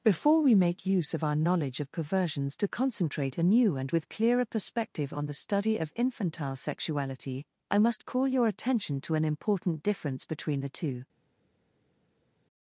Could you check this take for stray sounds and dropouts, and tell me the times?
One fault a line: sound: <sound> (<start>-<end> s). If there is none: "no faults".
no faults